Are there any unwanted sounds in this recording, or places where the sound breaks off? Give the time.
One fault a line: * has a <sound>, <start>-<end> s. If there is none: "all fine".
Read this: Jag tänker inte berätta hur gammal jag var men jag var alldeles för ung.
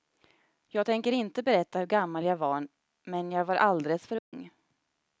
* has a dropout, 4.2-4.3 s